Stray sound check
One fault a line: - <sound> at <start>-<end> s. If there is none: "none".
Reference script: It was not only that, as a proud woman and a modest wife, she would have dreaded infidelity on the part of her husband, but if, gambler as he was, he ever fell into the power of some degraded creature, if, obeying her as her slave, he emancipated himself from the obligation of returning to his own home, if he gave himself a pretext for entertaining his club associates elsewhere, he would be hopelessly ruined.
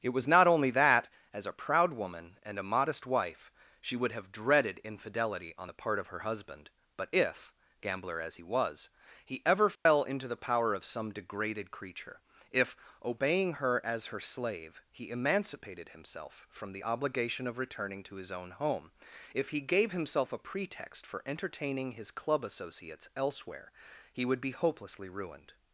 - dropout at 9.8-9.9 s